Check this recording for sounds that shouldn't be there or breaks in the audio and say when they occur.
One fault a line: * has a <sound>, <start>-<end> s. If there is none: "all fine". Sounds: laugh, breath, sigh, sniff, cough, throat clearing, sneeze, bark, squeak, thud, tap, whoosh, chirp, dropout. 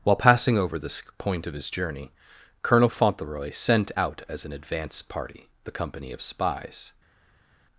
all fine